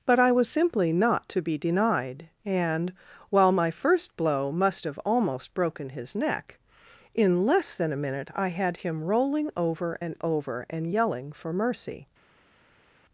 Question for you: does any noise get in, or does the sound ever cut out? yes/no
no